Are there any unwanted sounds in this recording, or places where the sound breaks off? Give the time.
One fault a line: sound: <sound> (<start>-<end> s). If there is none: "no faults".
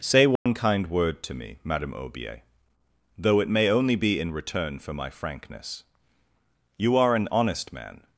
sound: dropout (0.4-0.5 s)